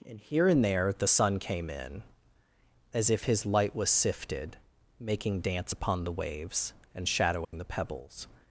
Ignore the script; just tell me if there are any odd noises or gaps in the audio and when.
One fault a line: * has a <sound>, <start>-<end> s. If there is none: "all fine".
* has a dropout, 7.4-7.5 s